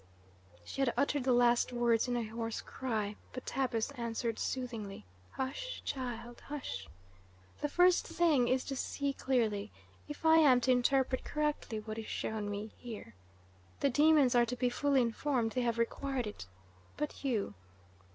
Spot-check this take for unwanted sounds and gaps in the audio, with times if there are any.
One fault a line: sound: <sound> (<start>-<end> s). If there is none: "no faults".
no faults